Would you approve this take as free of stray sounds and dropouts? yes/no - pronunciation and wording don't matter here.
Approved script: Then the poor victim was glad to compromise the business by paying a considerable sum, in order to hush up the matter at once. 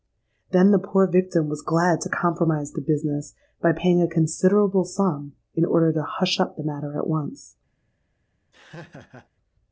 no